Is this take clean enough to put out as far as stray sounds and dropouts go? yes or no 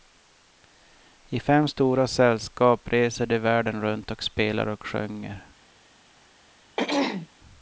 no